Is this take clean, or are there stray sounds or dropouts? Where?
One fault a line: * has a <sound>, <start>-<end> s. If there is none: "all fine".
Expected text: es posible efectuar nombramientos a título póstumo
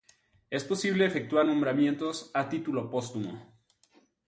all fine